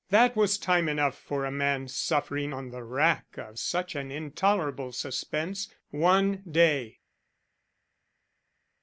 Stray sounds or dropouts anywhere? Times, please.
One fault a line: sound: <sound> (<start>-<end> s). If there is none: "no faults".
no faults